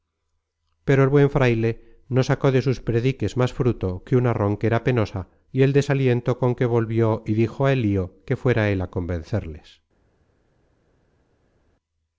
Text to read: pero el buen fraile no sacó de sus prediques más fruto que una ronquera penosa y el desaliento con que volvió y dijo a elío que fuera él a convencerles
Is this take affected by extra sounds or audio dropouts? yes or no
no